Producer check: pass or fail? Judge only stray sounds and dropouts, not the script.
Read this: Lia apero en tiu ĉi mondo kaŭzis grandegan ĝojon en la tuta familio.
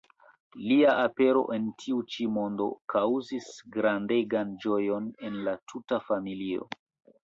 pass